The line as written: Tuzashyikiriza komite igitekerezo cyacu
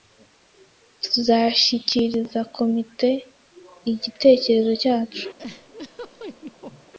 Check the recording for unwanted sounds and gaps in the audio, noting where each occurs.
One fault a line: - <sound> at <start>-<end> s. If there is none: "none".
- laugh at 5.4-6.9 s